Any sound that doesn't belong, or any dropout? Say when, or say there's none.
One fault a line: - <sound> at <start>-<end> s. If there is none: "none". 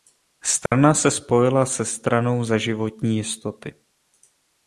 - dropout at 0.7-0.7 s